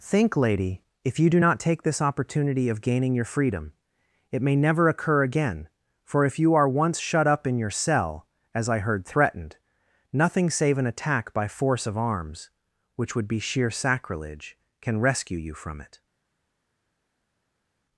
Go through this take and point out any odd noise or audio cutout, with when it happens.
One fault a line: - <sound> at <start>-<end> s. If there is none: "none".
none